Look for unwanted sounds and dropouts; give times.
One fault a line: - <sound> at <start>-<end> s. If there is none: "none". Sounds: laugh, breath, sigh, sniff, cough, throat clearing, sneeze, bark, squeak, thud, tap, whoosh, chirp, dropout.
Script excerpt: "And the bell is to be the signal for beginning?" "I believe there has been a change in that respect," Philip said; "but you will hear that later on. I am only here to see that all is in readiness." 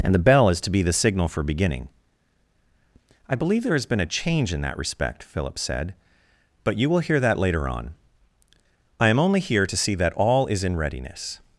none